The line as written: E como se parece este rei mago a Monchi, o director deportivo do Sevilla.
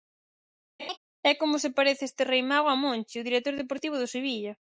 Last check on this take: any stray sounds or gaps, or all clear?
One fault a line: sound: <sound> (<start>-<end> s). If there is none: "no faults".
sound: laugh (0.8-1.0 s)